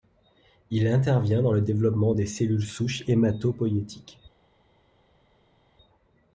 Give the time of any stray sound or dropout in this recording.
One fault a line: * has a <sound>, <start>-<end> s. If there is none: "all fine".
all fine